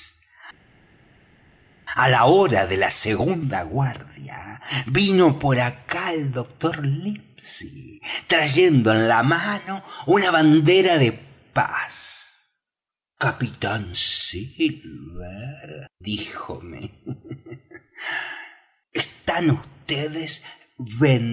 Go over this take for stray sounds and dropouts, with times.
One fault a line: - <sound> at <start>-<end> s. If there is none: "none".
none